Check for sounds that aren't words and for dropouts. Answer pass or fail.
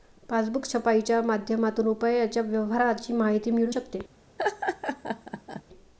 fail